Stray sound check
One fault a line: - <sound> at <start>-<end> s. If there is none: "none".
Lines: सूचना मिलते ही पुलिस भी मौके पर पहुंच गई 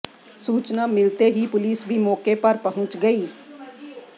none